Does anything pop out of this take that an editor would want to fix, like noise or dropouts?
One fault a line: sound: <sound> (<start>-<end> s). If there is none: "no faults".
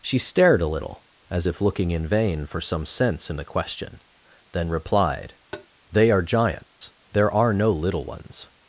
sound: tap (5.5-5.7 s)
sound: dropout (6.7-6.8 s)